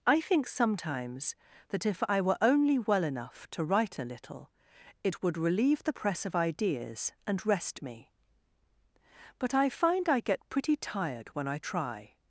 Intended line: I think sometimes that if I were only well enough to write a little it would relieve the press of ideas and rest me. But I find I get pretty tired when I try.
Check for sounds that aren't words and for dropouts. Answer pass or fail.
pass